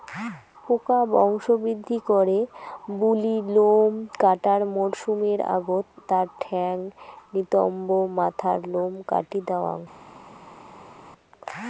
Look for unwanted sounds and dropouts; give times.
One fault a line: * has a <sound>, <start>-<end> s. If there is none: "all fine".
all fine